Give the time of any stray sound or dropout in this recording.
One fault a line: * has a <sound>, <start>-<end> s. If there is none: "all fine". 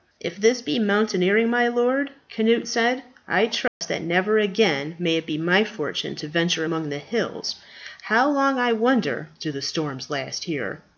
* has a dropout, 3.7-3.8 s